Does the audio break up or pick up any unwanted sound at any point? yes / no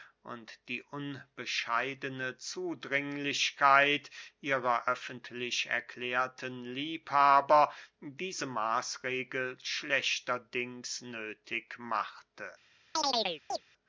yes